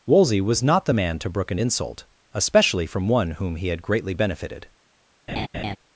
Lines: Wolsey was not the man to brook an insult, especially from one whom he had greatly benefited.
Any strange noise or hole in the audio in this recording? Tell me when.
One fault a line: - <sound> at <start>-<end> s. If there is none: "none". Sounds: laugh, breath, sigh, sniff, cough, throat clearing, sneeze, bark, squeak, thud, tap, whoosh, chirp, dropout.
- laugh at 5.3-5.8 s